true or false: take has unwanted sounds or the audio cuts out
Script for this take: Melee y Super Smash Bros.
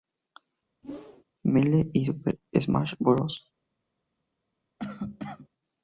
true